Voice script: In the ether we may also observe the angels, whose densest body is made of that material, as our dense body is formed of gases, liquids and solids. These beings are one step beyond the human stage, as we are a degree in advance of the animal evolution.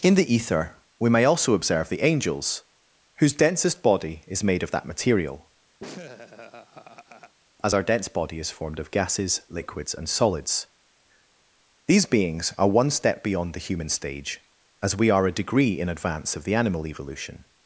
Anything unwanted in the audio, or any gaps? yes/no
yes